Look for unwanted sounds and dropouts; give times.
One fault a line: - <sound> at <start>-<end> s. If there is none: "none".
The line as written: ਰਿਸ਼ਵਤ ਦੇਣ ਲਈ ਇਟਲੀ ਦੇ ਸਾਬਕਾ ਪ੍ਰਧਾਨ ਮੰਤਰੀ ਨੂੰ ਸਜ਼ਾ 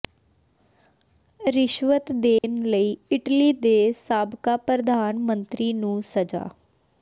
- dropout at 2.4-2.4 s